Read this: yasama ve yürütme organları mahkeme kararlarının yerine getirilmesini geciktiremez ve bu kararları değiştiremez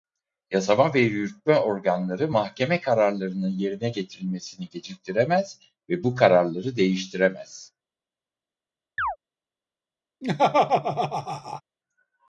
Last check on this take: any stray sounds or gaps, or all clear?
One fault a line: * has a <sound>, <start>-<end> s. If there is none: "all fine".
* has a chirp, 9.0-9.2 s
* has a laugh, 10.2-11.6 s